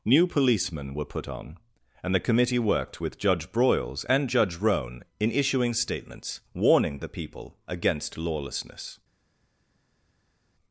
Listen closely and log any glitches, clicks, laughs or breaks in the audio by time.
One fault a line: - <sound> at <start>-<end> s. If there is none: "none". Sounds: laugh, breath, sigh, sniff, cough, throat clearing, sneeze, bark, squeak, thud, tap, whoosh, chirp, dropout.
none